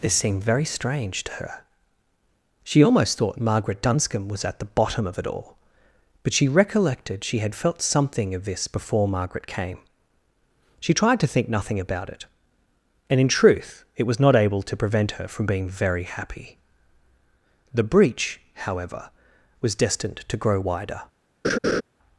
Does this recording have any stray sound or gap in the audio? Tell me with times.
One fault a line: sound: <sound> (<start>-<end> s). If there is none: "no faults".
sound: laugh (21.4-21.8 s)